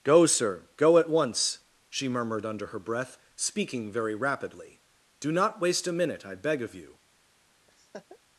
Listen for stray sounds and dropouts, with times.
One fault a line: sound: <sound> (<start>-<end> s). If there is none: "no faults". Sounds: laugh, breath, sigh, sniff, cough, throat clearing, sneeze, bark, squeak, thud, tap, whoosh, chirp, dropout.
sound: laugh (7.7-8.2 s)